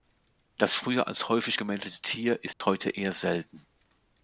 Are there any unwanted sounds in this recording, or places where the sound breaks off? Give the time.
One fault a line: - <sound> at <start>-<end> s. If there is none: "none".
- dropout at 2.5-2.6 s